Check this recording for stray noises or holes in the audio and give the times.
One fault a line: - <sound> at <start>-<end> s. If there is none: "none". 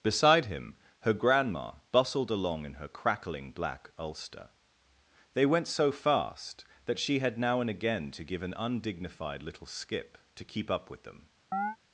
- chirp at 11.5-11.8 s